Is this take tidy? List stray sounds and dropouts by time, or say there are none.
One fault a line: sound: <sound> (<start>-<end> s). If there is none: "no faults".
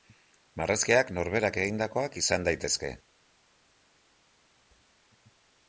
no faults